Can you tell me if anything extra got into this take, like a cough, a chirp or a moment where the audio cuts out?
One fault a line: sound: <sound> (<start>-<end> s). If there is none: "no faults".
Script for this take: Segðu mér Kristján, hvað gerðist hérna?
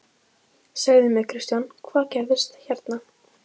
no faults